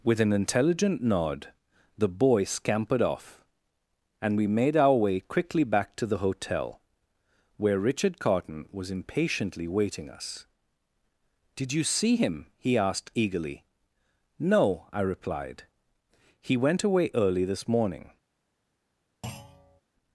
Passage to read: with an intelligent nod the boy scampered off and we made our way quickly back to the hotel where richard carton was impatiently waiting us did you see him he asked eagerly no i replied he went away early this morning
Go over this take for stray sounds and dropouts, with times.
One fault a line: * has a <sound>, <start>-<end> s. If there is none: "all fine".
* has a thud, 19.2-19.8 s